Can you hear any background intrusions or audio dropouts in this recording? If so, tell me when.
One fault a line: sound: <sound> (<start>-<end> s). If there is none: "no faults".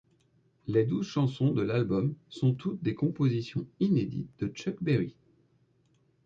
no faults